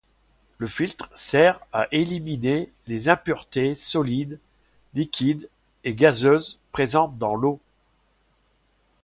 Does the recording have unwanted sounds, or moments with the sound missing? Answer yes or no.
no